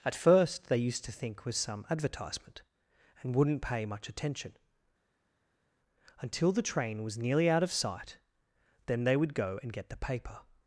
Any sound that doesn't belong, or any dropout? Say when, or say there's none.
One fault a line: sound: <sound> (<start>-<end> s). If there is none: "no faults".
no faults